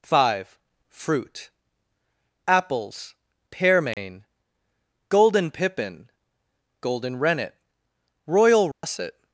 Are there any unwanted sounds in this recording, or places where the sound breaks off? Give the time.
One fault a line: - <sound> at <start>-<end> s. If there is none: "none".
- dropout at 3.9-4.0 s
- dropout at 8.7-8.8 s